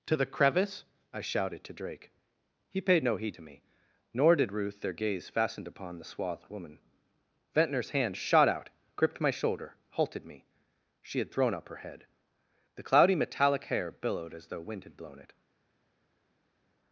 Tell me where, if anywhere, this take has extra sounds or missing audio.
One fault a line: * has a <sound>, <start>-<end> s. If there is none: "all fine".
all fine